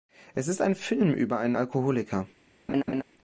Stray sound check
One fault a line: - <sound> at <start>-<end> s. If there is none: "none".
- laugh at 2.7-3.0 s